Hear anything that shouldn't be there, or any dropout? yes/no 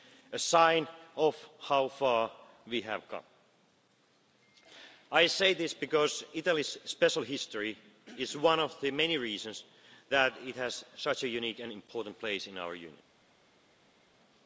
no